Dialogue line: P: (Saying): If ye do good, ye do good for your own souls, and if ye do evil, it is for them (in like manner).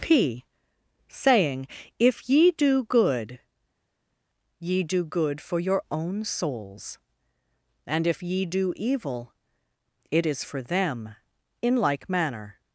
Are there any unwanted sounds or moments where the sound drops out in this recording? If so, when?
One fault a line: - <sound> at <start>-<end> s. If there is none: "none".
none